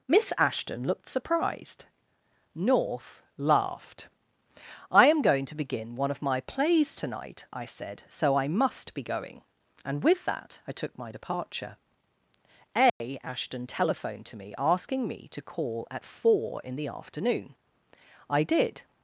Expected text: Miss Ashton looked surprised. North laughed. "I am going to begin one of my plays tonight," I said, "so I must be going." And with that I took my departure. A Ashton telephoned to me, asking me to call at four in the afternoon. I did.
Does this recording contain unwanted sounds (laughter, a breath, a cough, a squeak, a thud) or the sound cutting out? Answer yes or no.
yes